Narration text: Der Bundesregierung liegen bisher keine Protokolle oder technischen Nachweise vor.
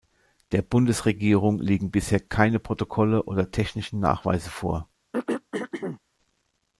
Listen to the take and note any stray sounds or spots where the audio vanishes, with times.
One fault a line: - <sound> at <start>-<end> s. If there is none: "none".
- throat clearing at 5.1-6.0 s